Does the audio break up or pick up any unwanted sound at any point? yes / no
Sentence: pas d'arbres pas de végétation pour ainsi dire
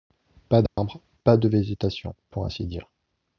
yes